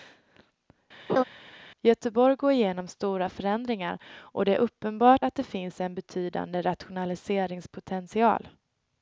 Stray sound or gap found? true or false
true